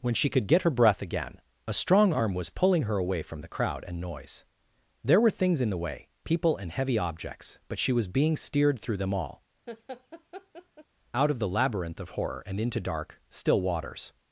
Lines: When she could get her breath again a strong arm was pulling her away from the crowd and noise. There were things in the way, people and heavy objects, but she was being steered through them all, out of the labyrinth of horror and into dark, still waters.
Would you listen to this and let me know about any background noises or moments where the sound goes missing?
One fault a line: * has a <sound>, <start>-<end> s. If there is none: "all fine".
* has a laugh, 9.7-10.9 s